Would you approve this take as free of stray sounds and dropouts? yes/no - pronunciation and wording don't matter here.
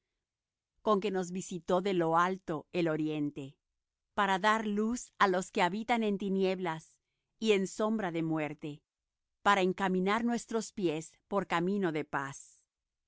yes